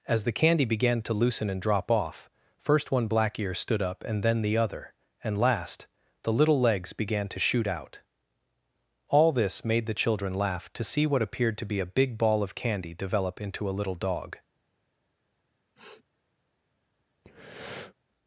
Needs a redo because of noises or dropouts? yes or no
yes